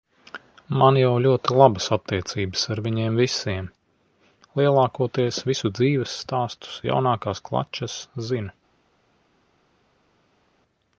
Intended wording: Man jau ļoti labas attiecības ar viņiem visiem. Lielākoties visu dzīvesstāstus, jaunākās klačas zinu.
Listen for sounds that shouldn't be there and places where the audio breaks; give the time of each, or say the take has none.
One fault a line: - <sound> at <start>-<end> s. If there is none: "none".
none